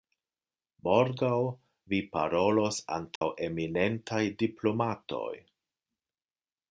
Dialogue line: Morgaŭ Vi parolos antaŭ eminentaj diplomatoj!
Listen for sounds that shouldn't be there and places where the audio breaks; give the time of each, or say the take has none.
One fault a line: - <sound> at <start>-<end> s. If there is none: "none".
- dropout at 3.2-3.2 s